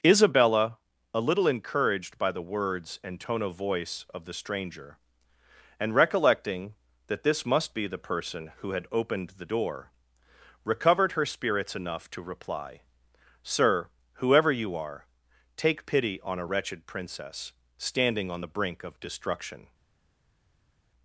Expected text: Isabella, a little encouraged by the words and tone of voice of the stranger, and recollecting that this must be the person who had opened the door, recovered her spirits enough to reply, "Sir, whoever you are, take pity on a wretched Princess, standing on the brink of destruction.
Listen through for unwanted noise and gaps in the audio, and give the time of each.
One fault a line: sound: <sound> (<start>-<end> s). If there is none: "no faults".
no faults